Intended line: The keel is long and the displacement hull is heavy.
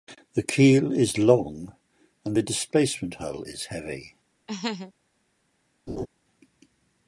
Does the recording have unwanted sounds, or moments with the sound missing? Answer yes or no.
yes